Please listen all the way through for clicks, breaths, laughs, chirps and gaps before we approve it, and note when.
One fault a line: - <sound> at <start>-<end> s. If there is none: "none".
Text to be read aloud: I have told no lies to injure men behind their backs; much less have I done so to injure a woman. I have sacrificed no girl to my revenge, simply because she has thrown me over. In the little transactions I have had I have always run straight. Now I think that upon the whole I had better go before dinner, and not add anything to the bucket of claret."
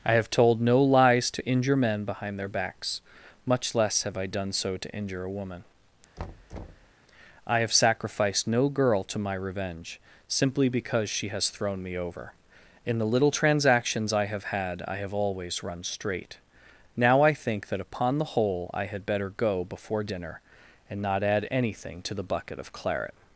- thud at 6.2-6.9 s